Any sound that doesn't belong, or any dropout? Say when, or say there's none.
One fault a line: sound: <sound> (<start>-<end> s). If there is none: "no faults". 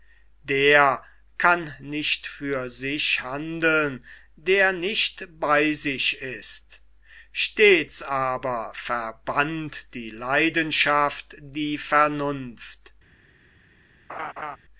sound: laugh (14.1-14.6 s)